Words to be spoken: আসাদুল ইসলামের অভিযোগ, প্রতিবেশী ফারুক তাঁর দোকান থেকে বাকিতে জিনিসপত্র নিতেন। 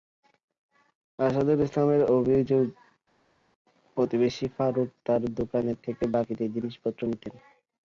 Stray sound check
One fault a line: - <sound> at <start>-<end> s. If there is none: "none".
none